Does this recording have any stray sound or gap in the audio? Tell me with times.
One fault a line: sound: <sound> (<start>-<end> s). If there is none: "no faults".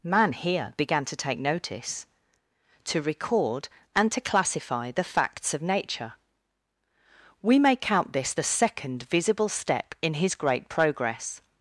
no faults